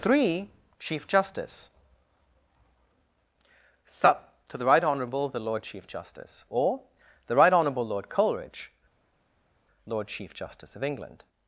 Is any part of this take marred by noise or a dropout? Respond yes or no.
no